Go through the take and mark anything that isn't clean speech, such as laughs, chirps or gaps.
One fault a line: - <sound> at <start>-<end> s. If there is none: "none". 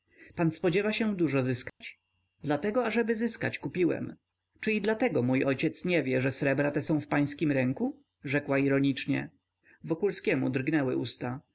- dropout at 1.7-1.8 s